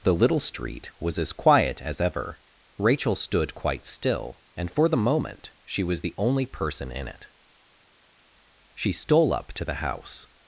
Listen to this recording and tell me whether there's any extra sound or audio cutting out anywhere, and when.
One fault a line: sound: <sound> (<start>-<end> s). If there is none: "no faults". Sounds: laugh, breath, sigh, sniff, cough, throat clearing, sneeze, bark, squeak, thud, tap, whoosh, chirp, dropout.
no faults